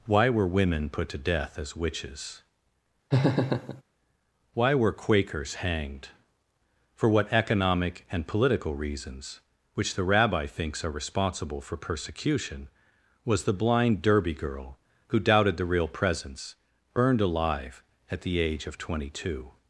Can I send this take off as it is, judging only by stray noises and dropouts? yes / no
no